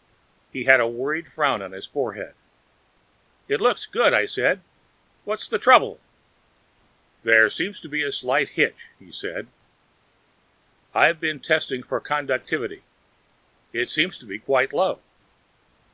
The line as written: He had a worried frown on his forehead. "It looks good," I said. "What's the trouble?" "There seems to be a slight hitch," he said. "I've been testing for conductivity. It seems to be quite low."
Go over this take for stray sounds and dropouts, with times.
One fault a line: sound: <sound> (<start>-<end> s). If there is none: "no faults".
no faults